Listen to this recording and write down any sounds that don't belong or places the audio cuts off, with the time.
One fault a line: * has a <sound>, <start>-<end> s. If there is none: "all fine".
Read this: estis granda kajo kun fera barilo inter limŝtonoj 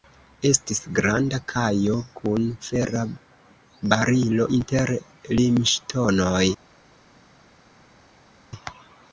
all fine